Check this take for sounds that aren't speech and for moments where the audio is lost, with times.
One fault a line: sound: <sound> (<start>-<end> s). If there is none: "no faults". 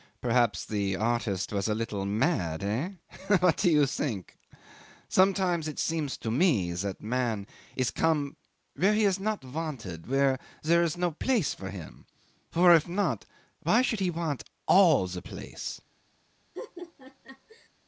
sound: laugh (16.5-17.7 s)